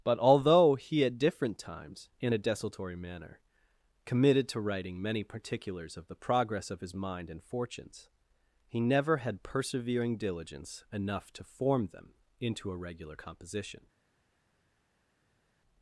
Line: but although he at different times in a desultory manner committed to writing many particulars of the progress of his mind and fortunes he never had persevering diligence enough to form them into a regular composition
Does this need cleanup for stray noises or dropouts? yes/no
no